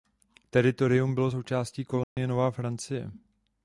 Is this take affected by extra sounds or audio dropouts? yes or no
yes